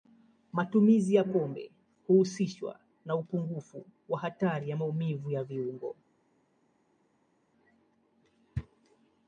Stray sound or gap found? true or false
false